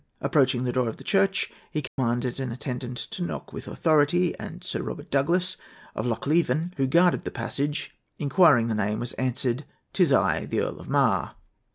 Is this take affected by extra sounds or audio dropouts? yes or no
yes